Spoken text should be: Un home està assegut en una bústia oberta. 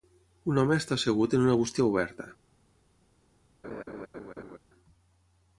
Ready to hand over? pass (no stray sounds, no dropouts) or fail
fail